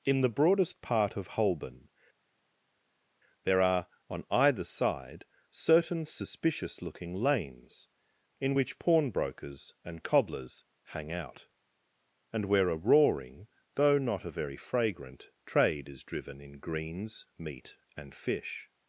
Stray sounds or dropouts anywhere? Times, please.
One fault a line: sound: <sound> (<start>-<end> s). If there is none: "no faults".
no faults